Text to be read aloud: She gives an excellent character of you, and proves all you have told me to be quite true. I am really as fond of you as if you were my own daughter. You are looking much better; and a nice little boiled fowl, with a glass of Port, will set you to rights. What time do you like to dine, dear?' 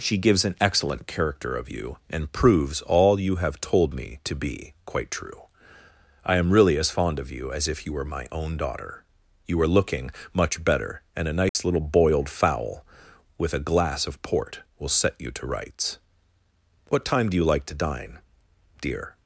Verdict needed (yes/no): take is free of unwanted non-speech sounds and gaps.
no